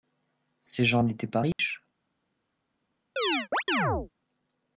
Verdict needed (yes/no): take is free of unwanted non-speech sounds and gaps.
no